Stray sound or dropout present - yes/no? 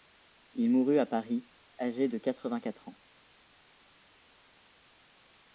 no